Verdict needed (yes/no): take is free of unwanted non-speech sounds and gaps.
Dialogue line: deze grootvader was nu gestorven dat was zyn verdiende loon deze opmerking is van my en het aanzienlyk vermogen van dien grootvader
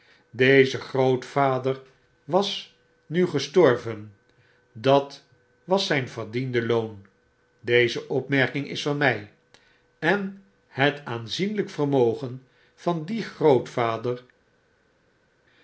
yes